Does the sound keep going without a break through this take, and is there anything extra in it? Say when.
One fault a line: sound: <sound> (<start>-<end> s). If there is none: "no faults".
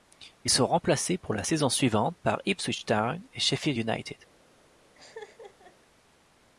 sound: laugh (4.9-5.8 s)